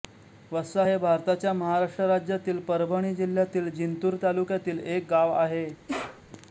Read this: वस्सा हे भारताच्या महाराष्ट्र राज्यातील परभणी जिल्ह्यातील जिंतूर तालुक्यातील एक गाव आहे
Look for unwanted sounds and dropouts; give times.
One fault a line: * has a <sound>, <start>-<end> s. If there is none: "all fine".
* has a sneeze, 5.9-6.2 s